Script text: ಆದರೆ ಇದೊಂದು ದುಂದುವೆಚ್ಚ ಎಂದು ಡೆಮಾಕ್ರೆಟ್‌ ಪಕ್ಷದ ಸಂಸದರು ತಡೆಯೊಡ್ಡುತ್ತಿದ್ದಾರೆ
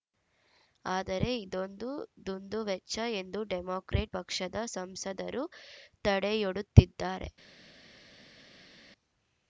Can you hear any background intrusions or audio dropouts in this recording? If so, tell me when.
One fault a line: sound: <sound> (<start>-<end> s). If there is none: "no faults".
no faults